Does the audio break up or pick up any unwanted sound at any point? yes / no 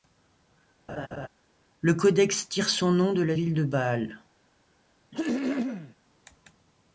yes